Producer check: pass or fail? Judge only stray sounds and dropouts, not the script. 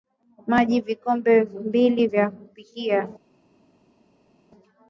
pass